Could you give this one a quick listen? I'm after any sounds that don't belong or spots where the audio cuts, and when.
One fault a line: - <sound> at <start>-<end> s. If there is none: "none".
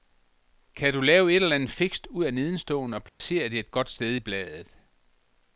- dropout at 3.1-3.2 s